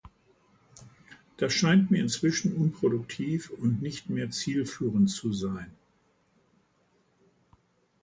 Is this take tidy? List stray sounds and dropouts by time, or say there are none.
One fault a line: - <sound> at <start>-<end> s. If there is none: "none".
none